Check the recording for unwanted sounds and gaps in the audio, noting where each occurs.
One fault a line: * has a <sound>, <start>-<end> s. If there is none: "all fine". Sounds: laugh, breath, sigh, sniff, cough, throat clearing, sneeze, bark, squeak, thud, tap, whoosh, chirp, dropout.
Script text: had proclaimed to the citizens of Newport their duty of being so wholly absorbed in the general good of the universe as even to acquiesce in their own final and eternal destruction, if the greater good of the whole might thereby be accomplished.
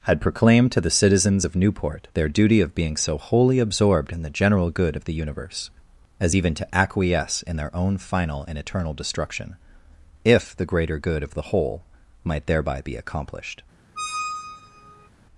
* has a squeak, 14.0-15.1 s